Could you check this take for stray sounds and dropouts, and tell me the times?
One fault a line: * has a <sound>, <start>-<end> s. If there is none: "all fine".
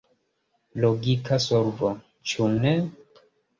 all fine